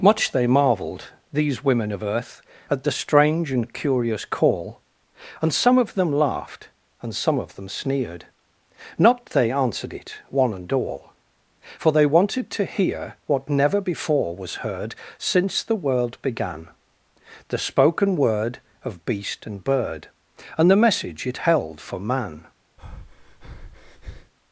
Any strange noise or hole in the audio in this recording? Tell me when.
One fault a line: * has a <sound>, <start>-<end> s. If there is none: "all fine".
* has a breath, 22.8-24.3 s